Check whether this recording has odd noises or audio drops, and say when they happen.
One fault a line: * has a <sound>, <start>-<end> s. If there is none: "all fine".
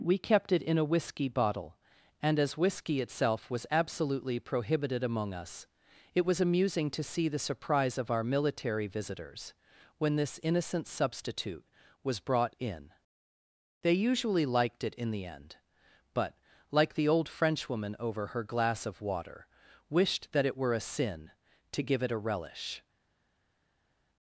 all fine